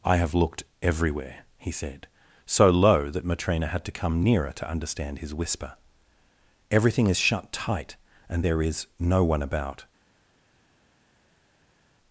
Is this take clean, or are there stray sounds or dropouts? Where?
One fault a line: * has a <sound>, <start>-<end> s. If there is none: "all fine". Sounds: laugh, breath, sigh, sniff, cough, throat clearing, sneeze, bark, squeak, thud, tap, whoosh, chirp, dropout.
all fine